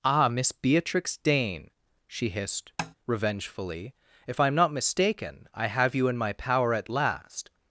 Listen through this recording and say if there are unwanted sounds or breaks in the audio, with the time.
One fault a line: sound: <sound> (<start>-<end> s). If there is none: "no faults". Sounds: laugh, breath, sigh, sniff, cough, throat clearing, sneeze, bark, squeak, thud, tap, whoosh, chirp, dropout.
sound: tap (2.8-2.9 s)